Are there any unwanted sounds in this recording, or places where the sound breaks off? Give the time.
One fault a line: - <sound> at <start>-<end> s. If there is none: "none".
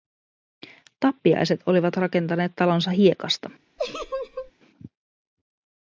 - laugh at 3.8-4.5 s